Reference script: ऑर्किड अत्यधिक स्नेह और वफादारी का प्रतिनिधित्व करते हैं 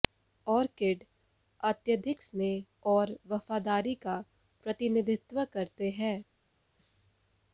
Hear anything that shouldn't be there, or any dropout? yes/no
no